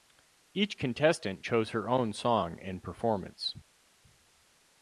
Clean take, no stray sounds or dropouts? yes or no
yes